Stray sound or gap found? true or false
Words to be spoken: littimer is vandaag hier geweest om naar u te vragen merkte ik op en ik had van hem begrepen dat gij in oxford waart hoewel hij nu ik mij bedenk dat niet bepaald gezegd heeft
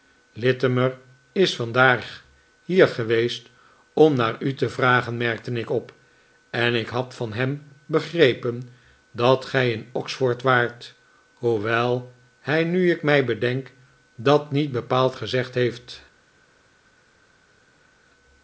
false